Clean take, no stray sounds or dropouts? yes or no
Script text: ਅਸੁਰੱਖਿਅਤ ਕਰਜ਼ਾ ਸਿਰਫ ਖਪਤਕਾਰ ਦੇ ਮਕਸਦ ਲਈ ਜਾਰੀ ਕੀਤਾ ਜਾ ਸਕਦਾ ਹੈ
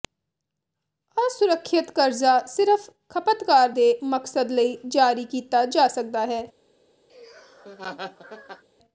no